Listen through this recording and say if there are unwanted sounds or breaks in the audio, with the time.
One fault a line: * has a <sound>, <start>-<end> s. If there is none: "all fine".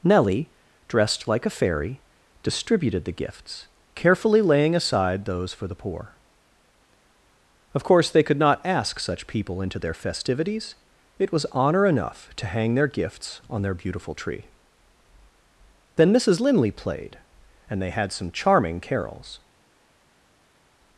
all fine